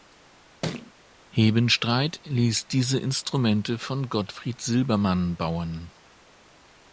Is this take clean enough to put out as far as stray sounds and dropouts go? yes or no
no